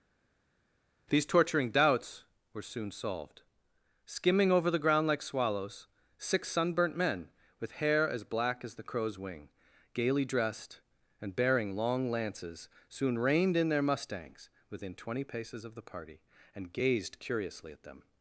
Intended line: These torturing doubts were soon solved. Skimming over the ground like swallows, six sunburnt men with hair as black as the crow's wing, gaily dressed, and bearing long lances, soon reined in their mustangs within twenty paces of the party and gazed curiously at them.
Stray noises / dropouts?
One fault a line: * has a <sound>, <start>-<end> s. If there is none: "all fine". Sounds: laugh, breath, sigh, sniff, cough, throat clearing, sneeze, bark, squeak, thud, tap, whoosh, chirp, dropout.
all fine